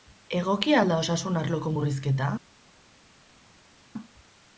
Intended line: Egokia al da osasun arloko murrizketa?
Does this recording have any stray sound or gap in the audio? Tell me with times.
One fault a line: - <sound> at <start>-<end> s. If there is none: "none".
none